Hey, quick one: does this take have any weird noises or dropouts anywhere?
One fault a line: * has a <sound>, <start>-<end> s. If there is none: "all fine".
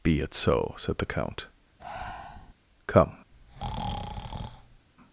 * has a breath, 1.8-2.5 s
* has a breath, 3.3-4.9 s